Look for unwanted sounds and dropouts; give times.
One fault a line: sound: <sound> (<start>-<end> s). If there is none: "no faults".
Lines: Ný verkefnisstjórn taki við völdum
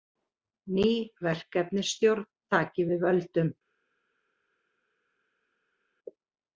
no faults